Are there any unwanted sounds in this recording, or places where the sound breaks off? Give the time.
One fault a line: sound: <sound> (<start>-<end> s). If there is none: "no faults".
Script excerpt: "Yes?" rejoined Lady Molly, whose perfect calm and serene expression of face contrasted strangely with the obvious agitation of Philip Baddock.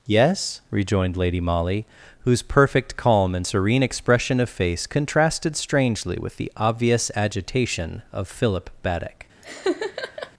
sound: laugh (9.4-10.3 s)